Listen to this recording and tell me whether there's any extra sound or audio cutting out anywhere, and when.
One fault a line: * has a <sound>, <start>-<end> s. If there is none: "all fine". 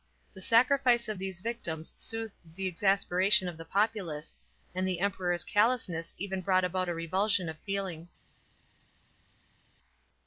all fine